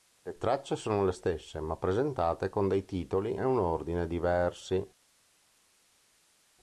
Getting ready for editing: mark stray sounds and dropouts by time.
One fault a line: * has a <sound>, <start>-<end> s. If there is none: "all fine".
all fine